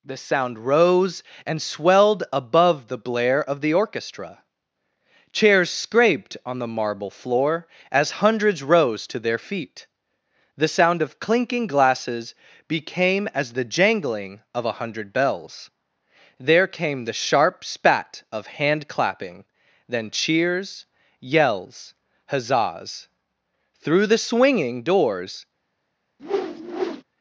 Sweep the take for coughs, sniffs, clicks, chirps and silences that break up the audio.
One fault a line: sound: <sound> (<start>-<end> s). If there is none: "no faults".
sound: whoosh (26.2-27.0 s)